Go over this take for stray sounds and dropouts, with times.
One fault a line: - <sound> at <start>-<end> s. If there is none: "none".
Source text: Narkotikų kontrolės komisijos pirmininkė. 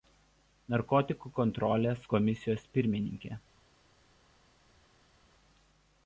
none